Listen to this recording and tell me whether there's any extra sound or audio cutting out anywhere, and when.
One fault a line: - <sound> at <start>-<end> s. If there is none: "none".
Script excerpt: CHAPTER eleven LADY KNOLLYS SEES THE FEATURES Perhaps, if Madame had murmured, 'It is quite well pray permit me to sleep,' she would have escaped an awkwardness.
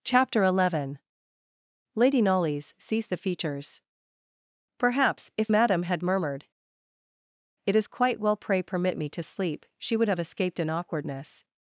none